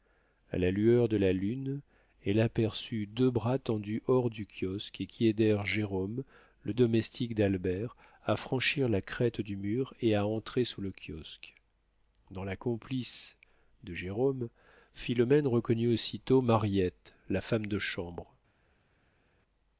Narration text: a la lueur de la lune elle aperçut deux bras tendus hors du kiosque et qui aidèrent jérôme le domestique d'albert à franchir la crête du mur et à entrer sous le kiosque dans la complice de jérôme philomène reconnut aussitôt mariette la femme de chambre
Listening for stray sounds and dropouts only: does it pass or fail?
pass